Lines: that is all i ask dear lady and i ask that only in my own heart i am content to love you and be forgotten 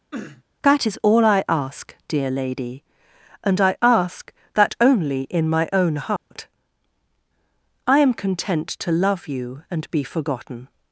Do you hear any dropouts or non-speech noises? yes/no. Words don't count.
yes